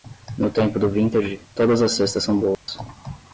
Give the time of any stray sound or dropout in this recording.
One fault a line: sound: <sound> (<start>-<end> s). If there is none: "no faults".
sound: dropout (2.5-2.7 s)